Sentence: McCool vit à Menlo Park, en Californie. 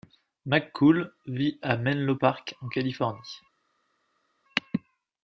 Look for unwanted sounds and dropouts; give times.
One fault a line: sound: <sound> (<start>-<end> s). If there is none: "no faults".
no faults